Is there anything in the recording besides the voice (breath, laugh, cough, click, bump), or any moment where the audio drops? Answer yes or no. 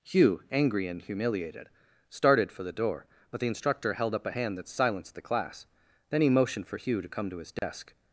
yes